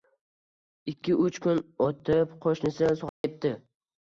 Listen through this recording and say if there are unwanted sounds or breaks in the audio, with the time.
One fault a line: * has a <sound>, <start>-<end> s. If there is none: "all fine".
* has a dropout, 3.1-3.2 s